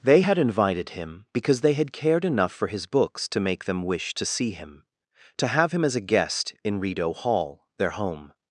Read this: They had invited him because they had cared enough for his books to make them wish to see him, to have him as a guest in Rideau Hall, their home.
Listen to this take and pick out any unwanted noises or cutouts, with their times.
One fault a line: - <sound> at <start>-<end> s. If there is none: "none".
none